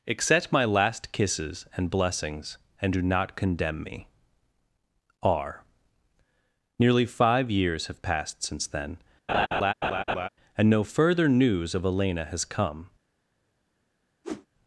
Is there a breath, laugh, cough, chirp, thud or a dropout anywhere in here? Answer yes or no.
yes